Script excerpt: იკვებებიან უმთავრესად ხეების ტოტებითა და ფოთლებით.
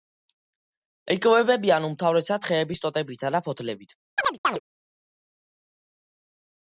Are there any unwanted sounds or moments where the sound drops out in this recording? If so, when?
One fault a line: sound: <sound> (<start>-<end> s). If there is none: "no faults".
sound: chirp (4.2-4.6 s)